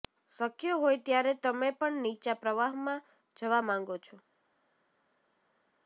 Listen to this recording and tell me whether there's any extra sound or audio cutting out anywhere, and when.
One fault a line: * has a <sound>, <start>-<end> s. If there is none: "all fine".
all fine